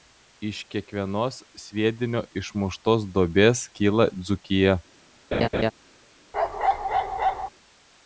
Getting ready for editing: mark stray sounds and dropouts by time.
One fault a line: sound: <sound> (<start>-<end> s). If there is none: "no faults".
sound: laugh (5.3-5.7 s)
sound: bark (6.3-7.5 s)